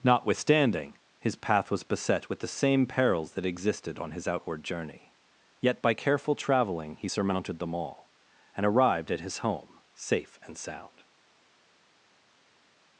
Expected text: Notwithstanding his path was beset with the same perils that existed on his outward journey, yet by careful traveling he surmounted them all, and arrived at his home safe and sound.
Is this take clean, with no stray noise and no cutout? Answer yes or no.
yes